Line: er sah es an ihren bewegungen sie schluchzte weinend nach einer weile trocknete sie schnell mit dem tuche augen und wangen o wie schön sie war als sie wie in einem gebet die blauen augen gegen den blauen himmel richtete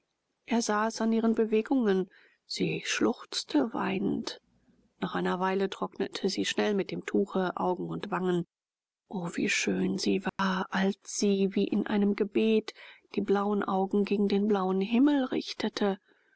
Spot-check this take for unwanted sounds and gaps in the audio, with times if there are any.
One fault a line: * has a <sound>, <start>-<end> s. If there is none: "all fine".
* has a dropout, 10.3-10.4 s